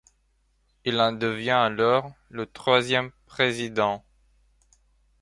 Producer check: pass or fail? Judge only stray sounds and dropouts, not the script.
pass